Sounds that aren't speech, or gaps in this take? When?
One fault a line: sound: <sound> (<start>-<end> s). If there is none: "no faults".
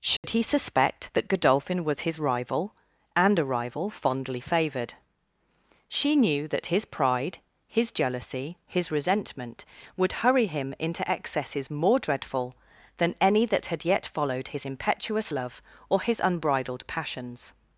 sound: dropout (0.2-0.2 s)